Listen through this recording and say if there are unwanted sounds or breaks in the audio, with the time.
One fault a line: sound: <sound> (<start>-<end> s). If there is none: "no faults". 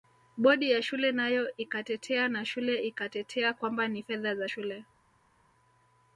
no faults